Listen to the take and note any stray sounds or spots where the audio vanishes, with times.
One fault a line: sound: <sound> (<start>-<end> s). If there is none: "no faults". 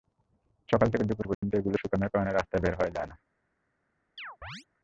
sound: dropout (1.3-1.4 s)
sound: chirp (4.2-4.6 s)